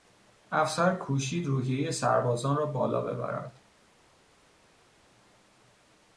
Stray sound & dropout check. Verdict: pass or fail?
pass